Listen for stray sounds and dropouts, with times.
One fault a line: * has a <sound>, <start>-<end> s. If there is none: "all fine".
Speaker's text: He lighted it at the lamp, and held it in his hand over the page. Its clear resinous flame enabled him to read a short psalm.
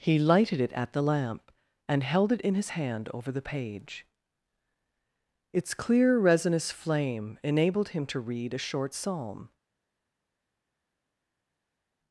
all fine